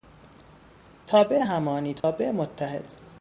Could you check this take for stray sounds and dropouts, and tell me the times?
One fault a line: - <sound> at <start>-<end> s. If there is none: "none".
- dropout at 2.0-2.0 s